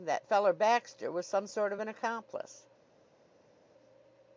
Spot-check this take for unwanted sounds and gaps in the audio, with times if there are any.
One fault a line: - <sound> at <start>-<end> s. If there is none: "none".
none